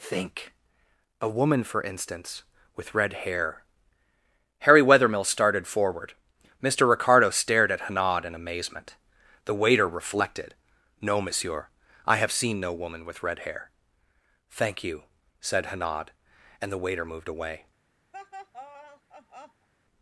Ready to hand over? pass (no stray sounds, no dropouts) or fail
fail